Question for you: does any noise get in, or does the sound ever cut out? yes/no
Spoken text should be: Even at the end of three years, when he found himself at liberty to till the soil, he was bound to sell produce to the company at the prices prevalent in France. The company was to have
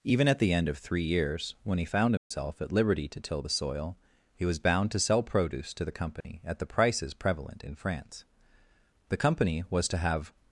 yes